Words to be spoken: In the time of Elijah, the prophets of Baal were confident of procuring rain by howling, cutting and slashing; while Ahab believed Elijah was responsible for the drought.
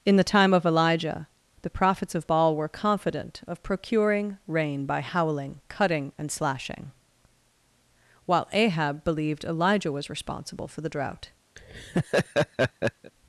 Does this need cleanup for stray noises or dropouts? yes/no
yes